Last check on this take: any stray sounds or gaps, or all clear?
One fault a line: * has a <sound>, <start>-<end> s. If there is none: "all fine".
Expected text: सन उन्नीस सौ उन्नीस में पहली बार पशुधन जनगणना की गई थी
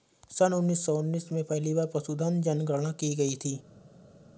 all fine